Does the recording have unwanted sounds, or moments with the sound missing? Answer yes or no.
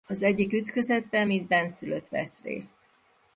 no